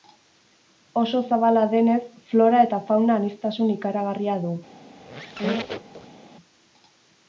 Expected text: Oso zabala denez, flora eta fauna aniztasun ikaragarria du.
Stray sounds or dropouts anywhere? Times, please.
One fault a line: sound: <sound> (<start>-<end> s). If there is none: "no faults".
sound: squeak (4.9-6.2 s)